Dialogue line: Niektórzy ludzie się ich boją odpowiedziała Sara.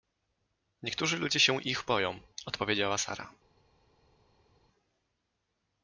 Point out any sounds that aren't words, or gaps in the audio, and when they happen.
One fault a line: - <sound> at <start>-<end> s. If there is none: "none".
none